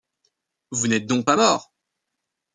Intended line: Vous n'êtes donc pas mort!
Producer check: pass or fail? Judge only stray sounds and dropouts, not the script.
pass